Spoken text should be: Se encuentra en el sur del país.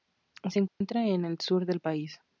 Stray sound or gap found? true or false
true